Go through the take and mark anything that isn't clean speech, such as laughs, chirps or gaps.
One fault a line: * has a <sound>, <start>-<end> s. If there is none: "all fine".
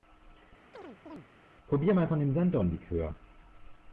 * has a chirp, 0.7-1.3 s